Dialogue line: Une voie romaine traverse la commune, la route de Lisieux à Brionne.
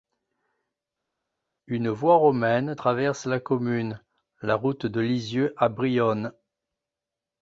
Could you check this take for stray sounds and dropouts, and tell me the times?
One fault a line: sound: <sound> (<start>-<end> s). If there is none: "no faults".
no faults